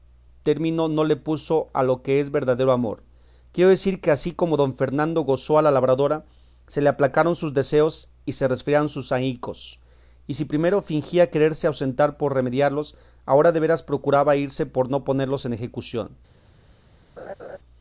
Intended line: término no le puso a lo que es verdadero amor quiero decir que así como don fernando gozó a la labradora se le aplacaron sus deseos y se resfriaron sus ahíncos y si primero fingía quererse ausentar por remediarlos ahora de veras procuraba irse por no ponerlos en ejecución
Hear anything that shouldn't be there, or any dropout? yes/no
yes